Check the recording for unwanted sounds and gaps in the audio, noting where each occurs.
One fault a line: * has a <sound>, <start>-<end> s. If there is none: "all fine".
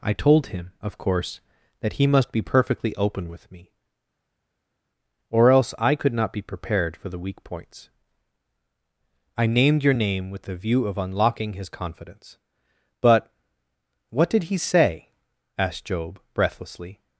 all fine